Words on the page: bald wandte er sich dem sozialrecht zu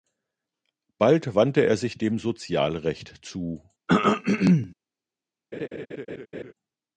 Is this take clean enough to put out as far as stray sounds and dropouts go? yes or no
no